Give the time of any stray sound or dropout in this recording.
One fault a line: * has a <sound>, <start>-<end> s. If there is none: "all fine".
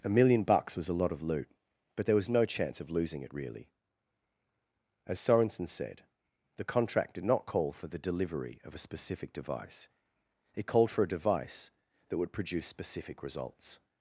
all fine